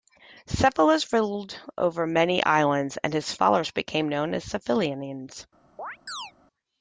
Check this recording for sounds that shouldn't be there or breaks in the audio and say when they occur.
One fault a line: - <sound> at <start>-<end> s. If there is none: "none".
- chirp at 5.8-6.3 s